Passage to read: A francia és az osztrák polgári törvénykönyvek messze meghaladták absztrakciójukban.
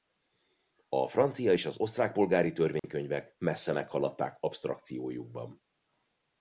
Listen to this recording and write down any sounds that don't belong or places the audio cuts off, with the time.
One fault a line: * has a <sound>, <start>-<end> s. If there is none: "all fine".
* has a dropout, 2.8-2.8 s